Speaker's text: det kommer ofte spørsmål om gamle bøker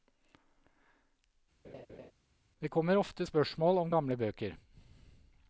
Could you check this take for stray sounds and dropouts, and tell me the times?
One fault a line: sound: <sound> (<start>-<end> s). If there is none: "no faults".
sound: laugh (1.6-2.1 s)